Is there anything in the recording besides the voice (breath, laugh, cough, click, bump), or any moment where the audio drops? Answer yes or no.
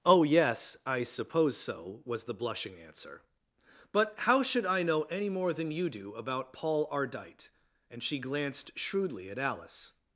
no